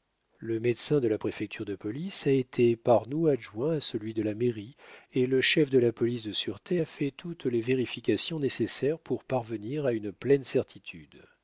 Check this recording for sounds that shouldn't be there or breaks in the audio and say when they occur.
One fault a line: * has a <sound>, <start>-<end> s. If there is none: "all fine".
all fine